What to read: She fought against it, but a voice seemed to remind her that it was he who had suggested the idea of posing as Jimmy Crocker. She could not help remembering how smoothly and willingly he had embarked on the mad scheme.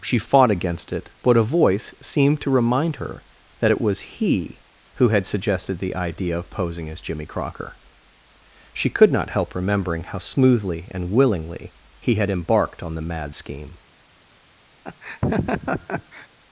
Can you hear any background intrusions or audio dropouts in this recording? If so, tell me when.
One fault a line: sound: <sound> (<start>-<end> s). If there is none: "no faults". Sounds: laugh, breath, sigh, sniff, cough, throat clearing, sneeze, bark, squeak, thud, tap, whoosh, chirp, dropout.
sound: laugh (14.8-16.3 s)